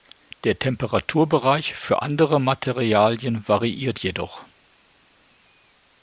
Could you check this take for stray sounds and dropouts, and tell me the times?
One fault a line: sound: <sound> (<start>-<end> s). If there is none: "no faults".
no faults